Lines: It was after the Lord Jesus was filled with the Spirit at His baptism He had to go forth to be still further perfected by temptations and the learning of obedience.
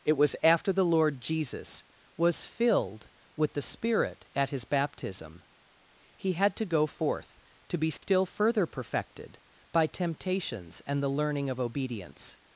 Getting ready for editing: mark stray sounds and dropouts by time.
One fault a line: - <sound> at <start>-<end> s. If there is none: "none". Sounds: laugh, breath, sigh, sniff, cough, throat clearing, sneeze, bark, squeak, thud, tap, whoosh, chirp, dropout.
- dropout at 8.0-8.0 s